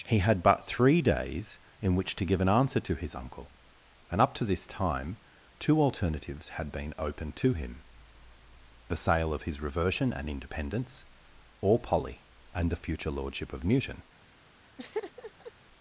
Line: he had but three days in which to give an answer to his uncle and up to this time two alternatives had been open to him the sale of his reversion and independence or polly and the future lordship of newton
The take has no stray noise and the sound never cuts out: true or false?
false